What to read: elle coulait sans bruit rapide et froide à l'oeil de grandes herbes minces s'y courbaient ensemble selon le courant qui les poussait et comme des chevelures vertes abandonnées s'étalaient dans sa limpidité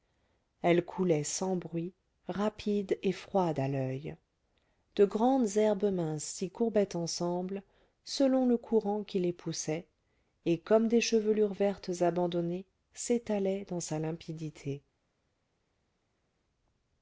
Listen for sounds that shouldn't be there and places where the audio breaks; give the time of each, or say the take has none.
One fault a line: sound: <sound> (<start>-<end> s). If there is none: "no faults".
no faults